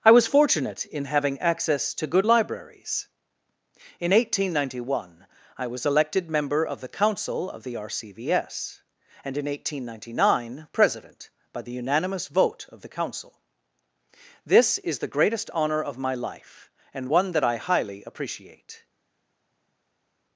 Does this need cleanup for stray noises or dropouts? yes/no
no